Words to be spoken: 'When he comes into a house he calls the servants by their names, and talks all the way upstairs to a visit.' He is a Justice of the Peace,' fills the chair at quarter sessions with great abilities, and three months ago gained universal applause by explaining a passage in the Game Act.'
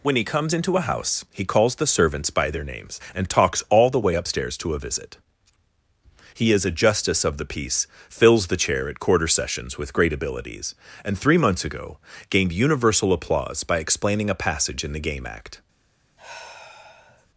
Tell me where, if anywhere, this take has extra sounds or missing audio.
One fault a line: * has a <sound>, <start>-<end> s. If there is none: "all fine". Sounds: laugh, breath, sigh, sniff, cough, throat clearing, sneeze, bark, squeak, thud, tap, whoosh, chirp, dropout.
* has a sigh, 16.2-17.3 s